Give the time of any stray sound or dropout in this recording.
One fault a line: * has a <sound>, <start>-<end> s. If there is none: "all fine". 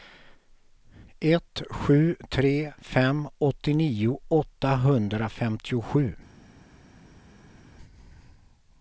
all fine